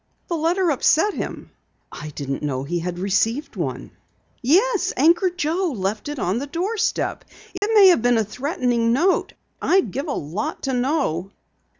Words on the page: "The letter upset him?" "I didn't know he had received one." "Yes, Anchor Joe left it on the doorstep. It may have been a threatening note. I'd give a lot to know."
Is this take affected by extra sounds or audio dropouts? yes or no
yes